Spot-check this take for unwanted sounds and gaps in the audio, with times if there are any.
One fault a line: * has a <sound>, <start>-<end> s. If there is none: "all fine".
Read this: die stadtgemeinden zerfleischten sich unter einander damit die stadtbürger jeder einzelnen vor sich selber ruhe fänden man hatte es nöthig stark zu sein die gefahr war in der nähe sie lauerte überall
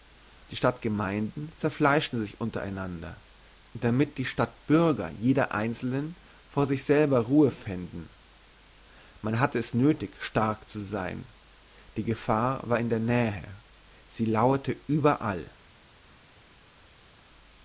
all fine